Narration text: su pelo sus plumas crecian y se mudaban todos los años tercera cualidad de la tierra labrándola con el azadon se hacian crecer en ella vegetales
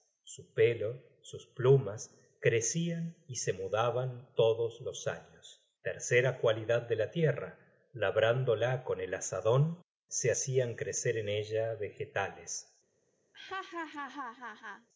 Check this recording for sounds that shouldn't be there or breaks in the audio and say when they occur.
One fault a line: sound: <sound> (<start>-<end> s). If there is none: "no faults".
sound: laugh (13.3-14.9 s)